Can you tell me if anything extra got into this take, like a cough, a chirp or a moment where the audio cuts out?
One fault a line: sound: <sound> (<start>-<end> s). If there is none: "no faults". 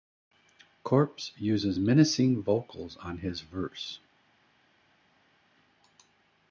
no faults